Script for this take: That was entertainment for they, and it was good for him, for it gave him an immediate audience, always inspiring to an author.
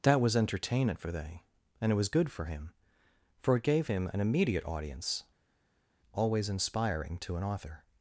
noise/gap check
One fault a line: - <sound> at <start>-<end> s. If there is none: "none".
none